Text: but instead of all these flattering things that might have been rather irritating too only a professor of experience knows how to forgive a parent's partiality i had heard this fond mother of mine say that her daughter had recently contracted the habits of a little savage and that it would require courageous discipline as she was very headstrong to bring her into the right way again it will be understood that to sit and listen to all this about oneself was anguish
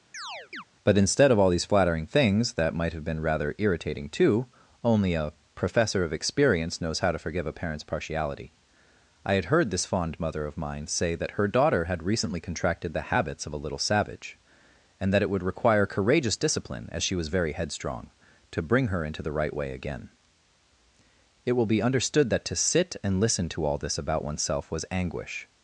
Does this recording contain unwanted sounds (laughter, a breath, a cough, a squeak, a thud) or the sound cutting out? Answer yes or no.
yes